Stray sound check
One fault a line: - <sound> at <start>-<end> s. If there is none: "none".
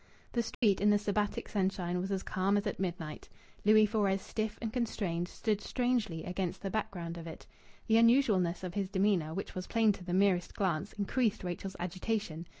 - dropout at 0.5-0.6 s